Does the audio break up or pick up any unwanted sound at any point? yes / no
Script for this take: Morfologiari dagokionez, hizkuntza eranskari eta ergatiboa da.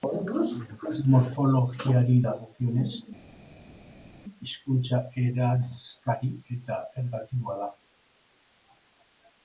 no